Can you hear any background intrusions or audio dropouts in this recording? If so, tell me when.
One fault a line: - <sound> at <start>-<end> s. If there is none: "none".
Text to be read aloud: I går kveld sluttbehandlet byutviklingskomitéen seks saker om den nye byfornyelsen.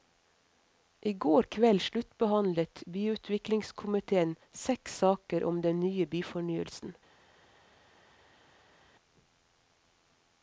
none